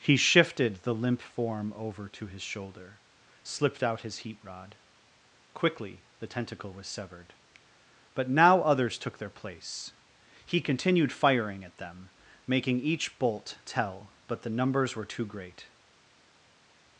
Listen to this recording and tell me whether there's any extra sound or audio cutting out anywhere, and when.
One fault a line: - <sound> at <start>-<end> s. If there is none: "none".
none